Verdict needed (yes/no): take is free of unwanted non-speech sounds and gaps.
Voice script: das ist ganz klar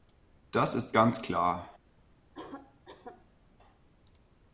no